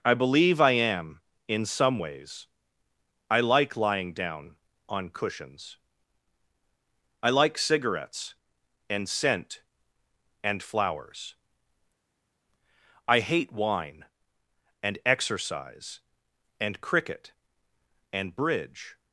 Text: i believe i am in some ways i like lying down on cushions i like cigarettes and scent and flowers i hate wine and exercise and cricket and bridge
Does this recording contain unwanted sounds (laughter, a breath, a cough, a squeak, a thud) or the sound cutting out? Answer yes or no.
no